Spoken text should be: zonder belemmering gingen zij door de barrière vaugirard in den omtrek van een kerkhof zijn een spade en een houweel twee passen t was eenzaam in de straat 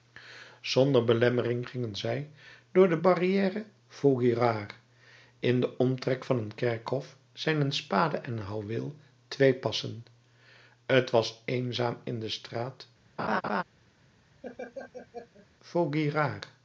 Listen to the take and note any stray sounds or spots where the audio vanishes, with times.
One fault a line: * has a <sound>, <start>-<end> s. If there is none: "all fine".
* has a laugh, 13.2-13.6 s
* has a laugh, 14.4-15.5 s